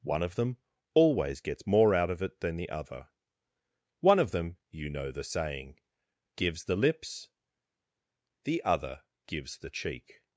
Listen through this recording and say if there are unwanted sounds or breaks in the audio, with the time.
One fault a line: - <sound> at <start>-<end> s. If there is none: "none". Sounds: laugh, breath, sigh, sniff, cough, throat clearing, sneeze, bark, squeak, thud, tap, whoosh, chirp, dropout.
none